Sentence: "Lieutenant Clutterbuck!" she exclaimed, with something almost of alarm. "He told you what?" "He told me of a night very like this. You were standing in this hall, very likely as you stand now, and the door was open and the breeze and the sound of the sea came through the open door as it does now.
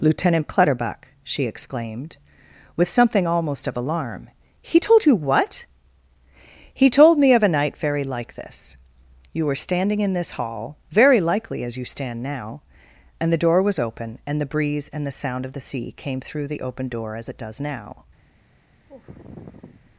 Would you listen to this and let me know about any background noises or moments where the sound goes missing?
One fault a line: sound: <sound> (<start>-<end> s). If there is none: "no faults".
sound: sigh (18.9-19.9 s)